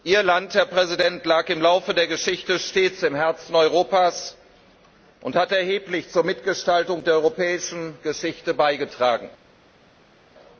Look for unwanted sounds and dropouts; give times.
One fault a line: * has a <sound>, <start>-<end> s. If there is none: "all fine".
all fine